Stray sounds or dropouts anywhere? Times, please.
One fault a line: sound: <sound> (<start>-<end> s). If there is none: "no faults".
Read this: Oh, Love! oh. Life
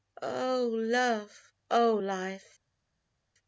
no faults